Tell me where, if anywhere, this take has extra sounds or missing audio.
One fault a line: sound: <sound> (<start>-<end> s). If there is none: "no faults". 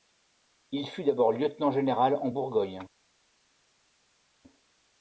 no faults